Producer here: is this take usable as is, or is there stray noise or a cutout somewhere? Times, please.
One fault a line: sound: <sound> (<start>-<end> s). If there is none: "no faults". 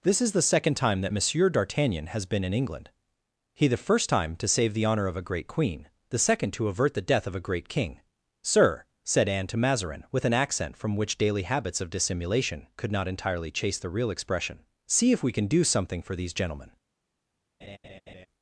sound: laugh (17.6-18.3 s)